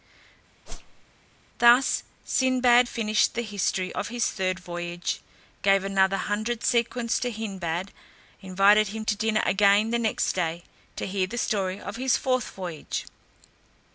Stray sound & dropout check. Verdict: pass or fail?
fail